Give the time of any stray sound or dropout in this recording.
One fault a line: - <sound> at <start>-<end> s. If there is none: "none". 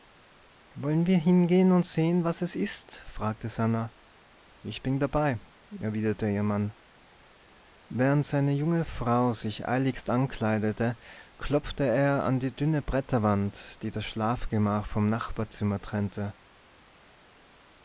none